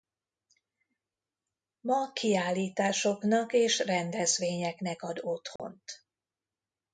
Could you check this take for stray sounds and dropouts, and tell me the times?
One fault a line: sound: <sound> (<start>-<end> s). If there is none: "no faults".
sound: dropout (5.6-5.6 s)